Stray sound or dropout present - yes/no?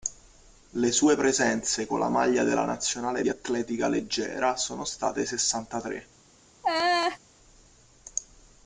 yes